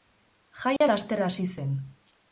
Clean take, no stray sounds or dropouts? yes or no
no